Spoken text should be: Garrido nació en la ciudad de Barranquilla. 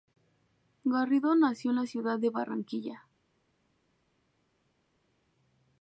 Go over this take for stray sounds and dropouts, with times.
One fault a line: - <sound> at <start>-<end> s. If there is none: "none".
none